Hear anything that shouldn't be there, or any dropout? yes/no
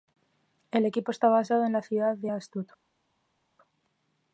no